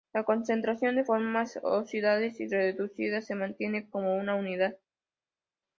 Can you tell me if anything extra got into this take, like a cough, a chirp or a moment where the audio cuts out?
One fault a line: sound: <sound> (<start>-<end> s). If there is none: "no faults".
no faults